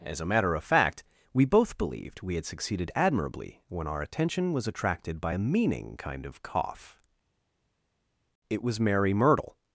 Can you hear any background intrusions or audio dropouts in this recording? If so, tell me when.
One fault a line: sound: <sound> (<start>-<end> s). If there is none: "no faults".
no faults